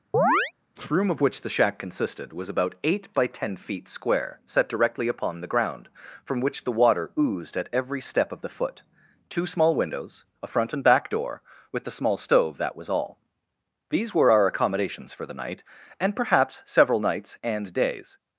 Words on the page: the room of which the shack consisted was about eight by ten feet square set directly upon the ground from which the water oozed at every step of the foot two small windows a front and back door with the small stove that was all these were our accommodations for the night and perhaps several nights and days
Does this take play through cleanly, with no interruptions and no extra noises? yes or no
no